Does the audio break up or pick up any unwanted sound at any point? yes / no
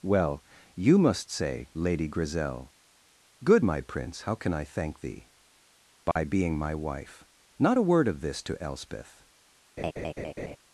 yes